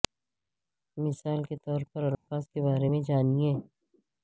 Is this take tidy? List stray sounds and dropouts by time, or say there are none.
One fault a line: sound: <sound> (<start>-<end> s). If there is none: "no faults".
sound: dropout (2.1-2.3 s)